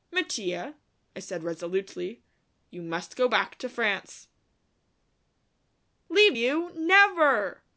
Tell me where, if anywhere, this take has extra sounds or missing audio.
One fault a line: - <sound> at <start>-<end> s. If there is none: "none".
none